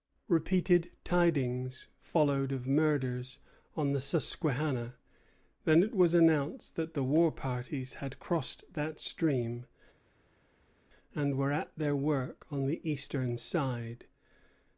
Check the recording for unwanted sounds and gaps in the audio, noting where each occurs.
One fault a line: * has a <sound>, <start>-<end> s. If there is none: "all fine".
all fine